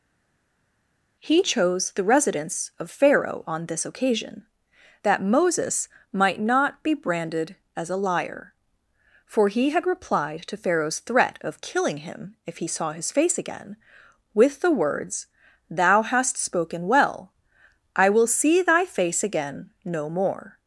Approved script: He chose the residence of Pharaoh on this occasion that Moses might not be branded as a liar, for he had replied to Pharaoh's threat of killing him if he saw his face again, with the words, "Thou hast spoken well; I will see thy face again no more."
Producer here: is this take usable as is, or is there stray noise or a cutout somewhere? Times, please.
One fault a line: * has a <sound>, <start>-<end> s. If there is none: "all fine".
all fine